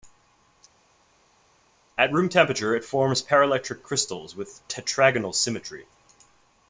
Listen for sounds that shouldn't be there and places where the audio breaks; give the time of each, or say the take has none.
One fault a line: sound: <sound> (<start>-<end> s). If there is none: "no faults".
no faults